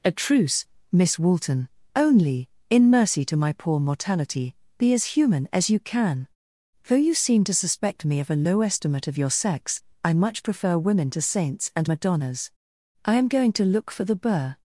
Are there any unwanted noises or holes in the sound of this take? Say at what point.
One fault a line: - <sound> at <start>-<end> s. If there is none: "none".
none